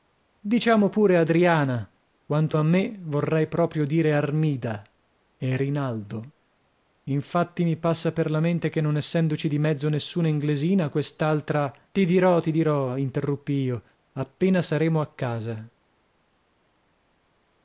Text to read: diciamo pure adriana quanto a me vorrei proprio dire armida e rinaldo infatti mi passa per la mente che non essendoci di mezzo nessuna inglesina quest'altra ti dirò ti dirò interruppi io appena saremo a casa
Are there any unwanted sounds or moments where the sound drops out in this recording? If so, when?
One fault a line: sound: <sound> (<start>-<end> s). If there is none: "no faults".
no faults